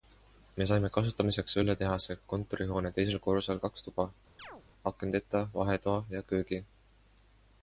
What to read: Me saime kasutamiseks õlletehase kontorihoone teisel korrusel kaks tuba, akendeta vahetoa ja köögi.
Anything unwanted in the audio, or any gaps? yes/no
yes